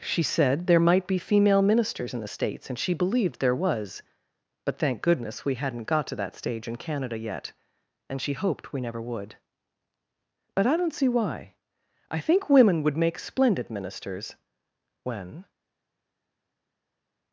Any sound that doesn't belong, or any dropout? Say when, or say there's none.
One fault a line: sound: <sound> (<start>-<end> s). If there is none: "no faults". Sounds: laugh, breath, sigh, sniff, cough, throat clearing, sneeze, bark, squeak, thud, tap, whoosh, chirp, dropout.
no faults